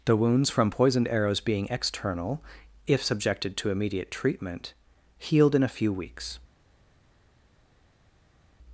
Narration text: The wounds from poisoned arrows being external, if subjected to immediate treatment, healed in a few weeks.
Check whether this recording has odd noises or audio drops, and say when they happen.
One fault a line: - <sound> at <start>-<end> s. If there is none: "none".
none